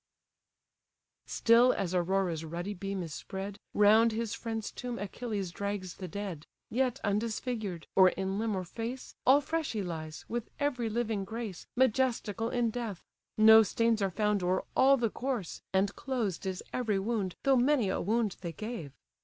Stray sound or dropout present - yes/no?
no